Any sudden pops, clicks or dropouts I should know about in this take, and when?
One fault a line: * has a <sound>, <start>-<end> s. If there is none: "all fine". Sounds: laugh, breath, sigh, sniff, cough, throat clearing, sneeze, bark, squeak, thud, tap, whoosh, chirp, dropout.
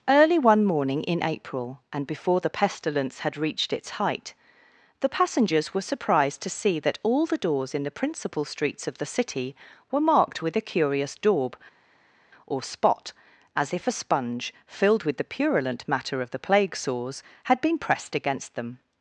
all fine